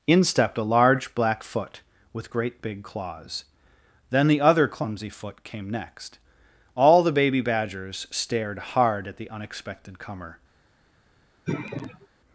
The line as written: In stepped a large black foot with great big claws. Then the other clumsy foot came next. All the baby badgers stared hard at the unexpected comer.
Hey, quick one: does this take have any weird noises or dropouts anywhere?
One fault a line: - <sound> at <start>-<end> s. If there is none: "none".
- sigh at 11.5-12.1 s